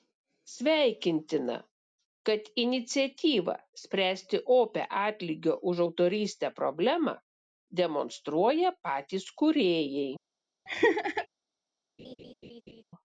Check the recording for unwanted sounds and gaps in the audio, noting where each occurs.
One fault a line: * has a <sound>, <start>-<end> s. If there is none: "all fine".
* has a laugh, 10.7-11.3 s
* has a laugh, 12.0-12.8 s